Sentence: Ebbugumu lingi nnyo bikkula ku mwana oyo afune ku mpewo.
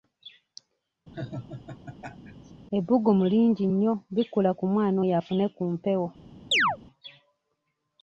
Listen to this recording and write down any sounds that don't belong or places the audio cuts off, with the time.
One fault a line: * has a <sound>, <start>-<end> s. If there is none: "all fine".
* has a laugh, 1.1-2.5 s
* has a chirp, 6.5-6.8 s